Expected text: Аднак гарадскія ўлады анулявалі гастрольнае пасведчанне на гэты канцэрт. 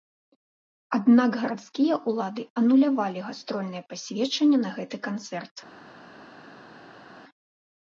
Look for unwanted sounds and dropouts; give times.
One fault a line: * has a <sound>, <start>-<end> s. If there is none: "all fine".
all fine